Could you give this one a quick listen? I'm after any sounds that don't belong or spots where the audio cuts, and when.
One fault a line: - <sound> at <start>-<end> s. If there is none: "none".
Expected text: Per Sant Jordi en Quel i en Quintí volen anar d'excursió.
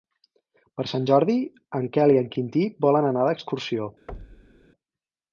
- thud at 4.1-4.7 s